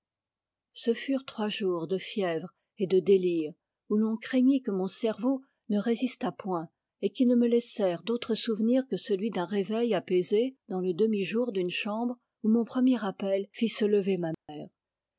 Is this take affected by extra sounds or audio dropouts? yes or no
yes